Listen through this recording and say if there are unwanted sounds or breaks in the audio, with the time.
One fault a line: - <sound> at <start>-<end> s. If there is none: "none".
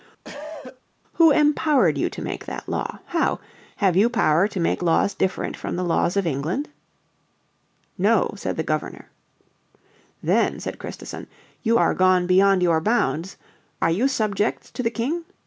- cough at 0.2-0.8 s